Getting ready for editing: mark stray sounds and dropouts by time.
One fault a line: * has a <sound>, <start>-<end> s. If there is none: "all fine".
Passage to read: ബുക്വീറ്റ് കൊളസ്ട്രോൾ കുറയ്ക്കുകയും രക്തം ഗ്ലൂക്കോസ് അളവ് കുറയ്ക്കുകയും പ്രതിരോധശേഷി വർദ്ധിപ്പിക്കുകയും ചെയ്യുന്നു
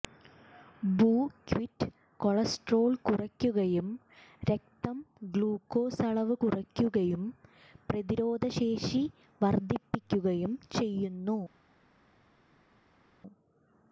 all fine